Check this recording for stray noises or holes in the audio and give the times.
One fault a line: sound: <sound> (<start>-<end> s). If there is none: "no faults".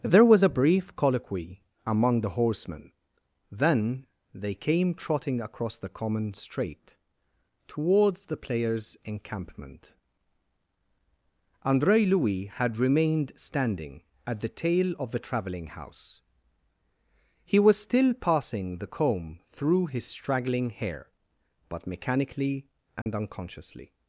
sound: dropout (23.0-23.1 s)